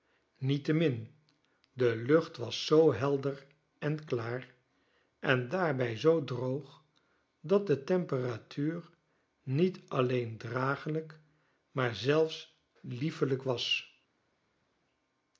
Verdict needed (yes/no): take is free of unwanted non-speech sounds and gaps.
yes